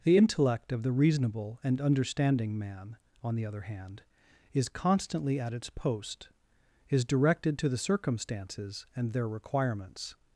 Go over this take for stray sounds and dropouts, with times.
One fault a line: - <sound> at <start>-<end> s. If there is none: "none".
none